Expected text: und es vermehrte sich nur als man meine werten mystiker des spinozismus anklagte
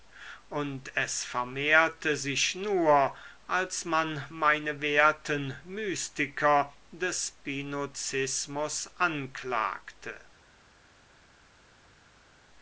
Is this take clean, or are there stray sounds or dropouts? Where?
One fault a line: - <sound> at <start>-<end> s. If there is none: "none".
none